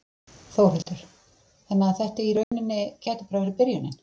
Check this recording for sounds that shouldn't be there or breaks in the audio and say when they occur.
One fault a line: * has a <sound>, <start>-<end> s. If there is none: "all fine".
* has a dropout, 0.8-0.9 s
* has a dropout, 2.4-2.5 s